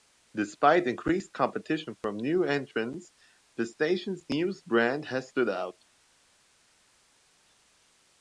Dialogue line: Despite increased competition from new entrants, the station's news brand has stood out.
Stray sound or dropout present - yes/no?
no